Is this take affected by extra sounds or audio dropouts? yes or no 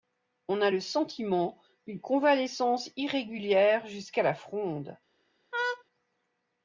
yes